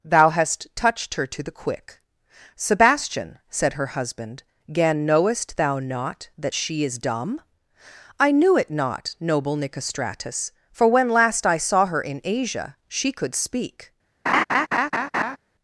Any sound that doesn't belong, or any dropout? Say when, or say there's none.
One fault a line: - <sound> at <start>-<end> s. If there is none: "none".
- laugh at 14.3-15.4 s